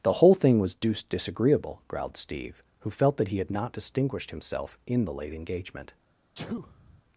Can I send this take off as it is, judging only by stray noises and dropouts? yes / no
no